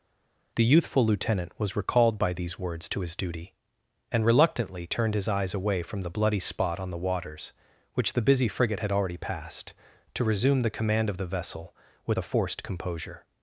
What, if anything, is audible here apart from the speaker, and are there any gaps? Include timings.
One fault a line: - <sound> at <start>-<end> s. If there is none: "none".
none